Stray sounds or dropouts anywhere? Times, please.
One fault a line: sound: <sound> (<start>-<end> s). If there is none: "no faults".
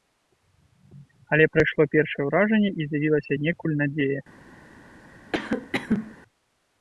sound: cough (5.3-6.1 s)